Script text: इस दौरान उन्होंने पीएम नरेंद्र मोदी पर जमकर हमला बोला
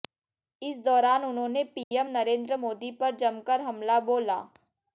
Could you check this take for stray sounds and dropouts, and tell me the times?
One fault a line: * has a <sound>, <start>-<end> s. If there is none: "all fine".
* has a dropout, 1.8-1.9 s